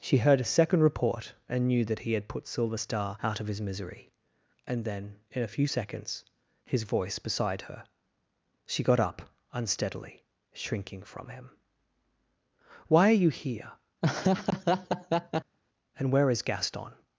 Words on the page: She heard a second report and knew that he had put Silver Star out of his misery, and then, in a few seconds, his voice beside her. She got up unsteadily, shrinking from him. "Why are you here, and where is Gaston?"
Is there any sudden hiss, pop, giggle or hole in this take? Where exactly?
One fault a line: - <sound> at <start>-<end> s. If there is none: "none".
- laugh at 14.0-15.6 s